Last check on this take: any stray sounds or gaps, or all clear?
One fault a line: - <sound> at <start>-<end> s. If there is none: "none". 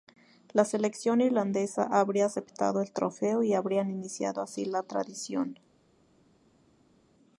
none